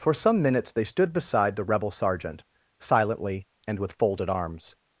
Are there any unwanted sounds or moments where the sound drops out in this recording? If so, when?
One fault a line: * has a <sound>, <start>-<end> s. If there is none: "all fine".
all fine